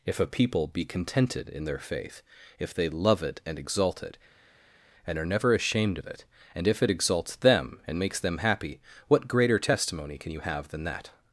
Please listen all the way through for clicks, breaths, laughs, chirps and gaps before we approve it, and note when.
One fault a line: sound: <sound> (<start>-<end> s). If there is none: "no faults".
no faults